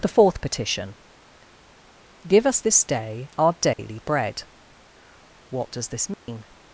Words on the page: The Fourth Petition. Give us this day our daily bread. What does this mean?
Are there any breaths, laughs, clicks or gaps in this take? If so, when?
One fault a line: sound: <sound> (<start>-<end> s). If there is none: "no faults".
sound: dropout (3.7-3.8 s)
sound: dropout (6.1-6.3 s)